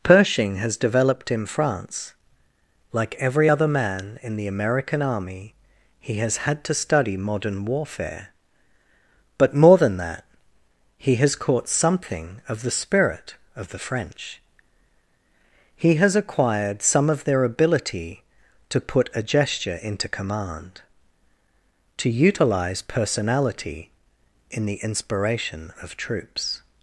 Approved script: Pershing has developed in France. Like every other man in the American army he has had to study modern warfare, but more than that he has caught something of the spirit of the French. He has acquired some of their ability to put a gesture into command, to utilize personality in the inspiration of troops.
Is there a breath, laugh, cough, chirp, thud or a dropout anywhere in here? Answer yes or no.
no